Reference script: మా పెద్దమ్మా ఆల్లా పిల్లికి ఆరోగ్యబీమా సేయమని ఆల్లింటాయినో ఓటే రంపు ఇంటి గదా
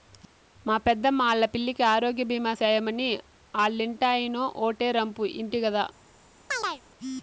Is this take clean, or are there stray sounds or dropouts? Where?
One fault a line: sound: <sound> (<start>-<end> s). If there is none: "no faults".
sound: chirp (6.5-6.8 s)